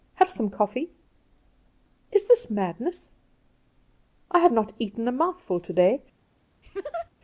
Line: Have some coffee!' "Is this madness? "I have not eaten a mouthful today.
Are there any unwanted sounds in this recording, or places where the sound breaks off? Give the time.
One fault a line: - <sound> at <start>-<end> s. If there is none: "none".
- laugh at 6.6-7.1 s